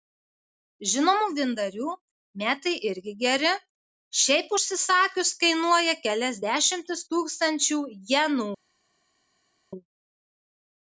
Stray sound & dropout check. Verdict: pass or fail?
pass